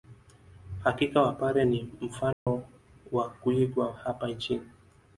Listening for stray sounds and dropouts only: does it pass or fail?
fail